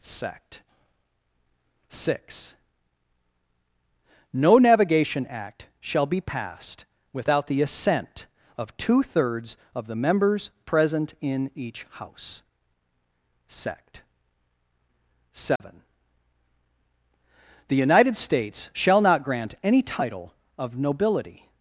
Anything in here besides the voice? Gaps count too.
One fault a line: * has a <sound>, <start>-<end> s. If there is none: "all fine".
* has a dropout, 15.6-15.6 s